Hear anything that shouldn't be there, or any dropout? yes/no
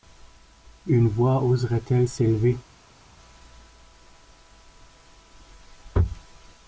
no